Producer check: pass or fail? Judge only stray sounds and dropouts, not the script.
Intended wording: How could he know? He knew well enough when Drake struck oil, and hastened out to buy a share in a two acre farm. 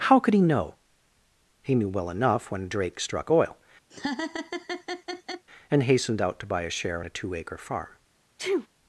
fail